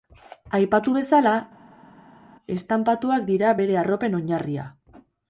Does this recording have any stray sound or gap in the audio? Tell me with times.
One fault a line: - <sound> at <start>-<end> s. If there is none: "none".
none